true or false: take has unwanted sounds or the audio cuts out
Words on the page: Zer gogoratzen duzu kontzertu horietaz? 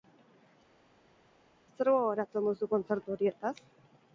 false